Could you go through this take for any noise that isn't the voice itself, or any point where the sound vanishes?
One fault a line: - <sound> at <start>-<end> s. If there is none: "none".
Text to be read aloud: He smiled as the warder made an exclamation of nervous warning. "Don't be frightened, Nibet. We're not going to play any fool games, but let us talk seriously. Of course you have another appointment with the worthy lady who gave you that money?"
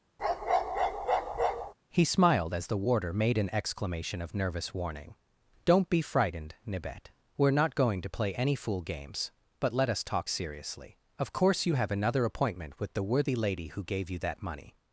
- bark at 0.2-1.7 s